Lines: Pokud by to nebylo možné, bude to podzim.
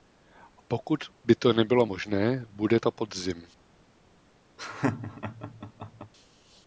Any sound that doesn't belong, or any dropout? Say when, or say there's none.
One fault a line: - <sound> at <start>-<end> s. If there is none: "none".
- laugh at 4.6-6.1 s